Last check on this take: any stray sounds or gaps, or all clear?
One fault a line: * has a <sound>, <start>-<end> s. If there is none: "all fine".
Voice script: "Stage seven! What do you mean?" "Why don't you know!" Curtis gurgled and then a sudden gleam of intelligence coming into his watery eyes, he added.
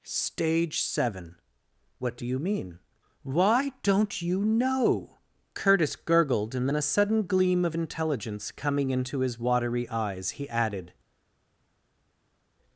all fine